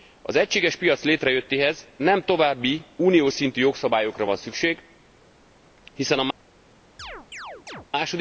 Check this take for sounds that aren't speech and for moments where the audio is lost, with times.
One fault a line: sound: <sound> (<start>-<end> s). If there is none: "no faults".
sound: chirp (7.0-7.9 s)